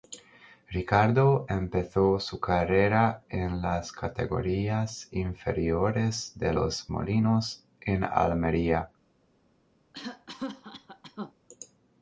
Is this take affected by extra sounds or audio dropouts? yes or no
yes